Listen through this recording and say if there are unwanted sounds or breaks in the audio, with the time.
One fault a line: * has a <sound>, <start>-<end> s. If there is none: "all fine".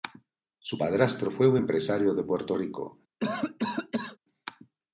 * has a cough, 3.2-4.2 s